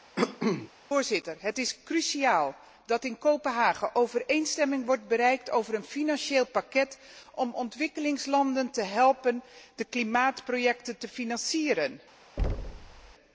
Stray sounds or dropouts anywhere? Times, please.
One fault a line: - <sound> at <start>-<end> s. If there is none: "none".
- cough at 0.2-0.7 s
- thud at 12.4-13.1 s